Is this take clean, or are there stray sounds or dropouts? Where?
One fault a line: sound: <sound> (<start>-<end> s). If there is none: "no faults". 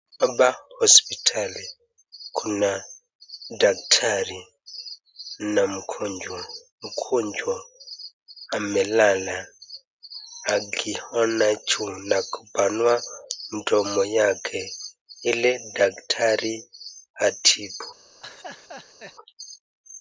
sound: laugh (18.2-19.1 s)